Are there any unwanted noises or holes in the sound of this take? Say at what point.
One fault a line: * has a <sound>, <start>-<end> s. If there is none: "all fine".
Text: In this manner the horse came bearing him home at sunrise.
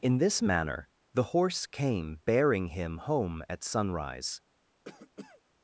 * has a cough, 4.8-5.4 s